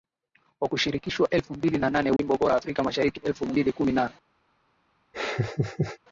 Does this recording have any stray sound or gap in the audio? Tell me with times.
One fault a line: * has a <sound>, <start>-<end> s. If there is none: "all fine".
* has a dropout, 2.2-2.2 s
* has a laugh, 5.1-6.0 s